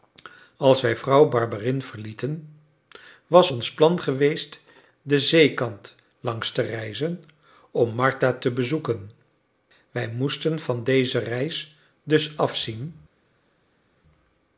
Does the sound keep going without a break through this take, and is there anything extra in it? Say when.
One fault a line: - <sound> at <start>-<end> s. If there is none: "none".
none